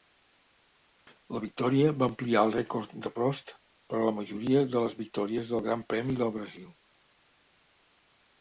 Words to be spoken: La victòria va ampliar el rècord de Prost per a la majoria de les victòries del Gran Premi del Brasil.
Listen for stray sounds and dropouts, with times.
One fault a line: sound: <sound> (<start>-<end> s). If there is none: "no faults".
no faults